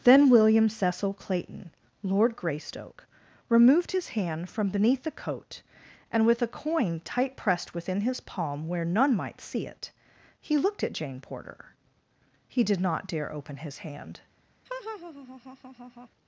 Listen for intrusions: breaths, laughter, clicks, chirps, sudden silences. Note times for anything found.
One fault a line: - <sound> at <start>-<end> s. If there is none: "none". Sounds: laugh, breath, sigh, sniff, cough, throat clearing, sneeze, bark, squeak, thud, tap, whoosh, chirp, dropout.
- laugh at 14.7-16.1 s